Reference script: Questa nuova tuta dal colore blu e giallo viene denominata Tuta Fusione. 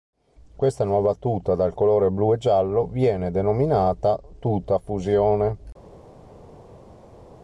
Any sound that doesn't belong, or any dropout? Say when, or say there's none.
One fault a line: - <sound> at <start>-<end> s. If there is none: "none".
none